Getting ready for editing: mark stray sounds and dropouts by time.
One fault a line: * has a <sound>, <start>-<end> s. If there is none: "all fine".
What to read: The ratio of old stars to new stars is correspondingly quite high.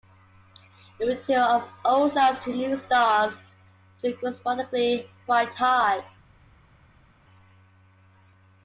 all fine